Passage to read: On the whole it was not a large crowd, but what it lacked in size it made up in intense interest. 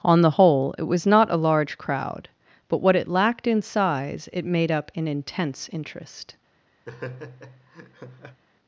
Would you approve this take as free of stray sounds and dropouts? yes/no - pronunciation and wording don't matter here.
no